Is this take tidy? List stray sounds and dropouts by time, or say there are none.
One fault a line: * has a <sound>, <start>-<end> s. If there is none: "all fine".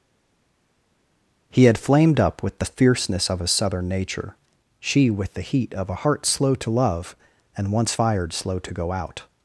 all fine